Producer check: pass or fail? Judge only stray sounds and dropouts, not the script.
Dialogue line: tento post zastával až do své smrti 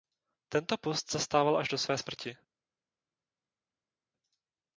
pass